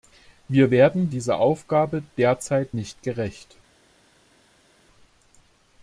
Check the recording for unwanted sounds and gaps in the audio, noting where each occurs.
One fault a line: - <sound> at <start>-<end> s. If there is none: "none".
none